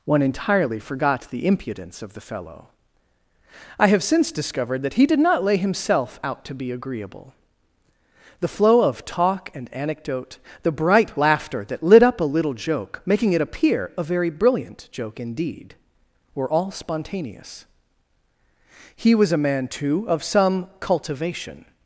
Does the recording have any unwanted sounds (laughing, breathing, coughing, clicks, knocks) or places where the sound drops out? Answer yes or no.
no